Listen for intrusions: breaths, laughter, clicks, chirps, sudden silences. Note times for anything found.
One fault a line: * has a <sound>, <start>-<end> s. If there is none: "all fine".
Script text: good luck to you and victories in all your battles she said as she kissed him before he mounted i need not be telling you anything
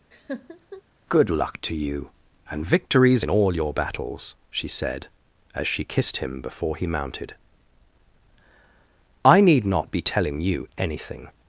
* has a laugh, 0.1-0.8 s